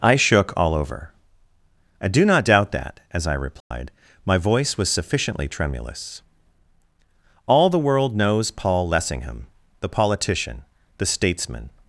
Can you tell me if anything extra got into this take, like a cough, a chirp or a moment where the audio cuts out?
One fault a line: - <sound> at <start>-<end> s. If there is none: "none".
- dropout at 3.6-3.7 s